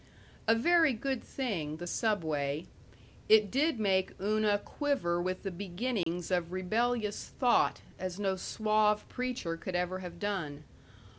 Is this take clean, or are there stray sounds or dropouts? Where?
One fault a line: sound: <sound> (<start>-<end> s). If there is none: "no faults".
sound: dropout (6.0-6.1 s)